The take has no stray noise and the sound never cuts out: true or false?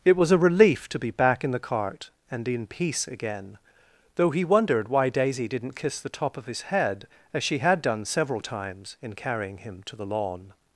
true